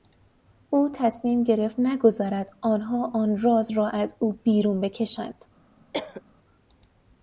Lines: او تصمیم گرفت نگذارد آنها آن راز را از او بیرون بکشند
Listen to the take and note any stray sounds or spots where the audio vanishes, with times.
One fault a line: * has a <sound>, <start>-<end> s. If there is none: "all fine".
* has a cough, 5.9-6.2 s